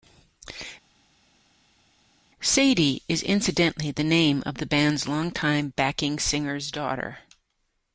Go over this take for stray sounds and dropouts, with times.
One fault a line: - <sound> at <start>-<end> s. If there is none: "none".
none